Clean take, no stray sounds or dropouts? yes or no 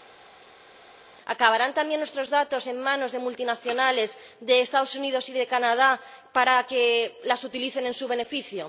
yes